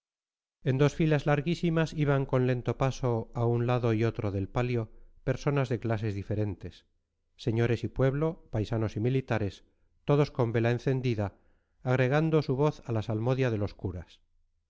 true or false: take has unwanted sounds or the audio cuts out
false